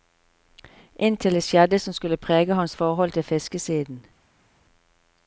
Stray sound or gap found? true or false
false